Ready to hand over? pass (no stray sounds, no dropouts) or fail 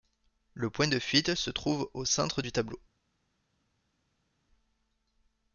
pass